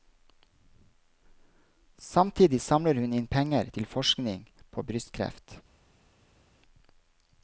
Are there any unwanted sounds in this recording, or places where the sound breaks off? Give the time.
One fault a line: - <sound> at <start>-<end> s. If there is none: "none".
none